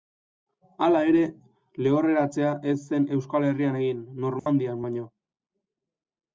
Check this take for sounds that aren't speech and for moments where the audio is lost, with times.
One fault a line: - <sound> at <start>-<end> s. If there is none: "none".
- dropout at 4.4-4.5 s